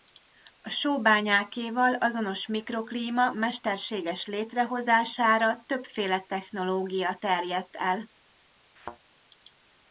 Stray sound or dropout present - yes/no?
yes